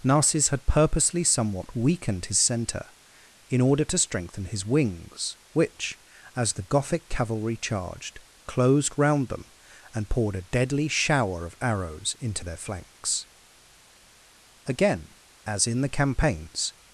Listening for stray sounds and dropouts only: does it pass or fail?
pass